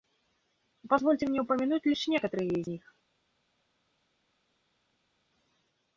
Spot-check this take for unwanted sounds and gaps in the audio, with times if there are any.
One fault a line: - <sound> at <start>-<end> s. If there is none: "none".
none